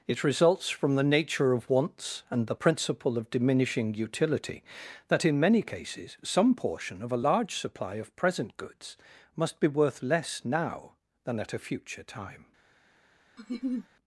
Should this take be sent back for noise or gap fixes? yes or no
yes